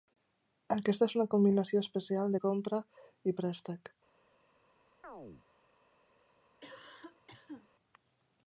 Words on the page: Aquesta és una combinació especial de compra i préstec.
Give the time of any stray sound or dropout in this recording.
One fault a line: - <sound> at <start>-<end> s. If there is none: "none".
- chirp at 5.0-5.5 s
- cough at 6.6-7.7 s